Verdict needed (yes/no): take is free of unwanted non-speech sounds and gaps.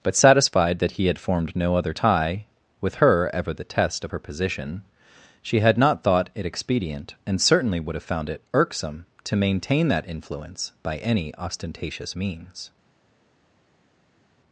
yes